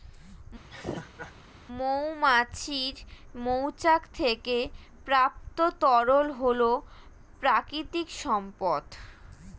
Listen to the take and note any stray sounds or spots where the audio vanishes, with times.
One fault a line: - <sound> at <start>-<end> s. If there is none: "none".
- laugh at 0.7-1.3 s